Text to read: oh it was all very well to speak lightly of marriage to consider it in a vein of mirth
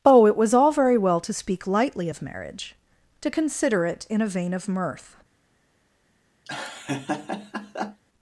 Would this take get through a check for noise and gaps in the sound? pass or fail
fail